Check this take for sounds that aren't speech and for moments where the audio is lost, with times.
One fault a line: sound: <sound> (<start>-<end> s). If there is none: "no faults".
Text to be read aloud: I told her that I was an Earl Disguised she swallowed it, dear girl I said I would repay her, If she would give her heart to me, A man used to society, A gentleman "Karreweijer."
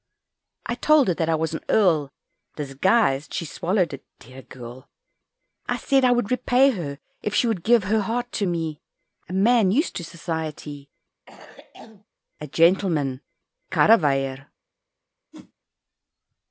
sound: cough (11.3-12.0 s)
sound: whoosh (15.3-15.5 s)